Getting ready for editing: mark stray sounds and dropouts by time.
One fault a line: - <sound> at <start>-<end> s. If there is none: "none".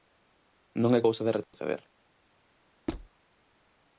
- dropout at 1.4-1.5 s
- squeak at 2.9-3.1 s